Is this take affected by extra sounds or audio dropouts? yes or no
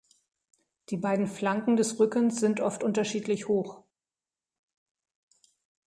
no